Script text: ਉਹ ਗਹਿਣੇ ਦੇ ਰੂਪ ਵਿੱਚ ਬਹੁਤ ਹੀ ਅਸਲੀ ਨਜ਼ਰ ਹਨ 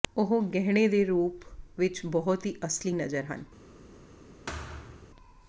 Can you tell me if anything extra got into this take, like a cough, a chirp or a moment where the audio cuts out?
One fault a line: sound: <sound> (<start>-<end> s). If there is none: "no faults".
sound: thud (4.5-5.1 s)